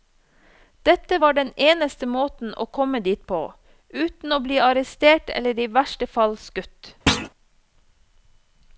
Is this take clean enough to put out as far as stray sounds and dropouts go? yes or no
no